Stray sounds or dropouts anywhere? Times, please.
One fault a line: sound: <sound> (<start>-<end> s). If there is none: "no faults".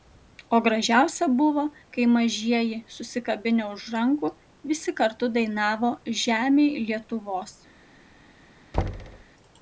sound: thud (8.7-9.2 s)